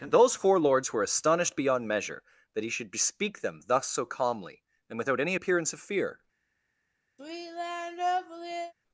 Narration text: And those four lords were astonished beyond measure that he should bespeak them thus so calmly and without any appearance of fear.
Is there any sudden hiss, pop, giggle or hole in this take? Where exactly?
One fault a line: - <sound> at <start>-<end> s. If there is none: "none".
- sigh at 7.2-8.7 s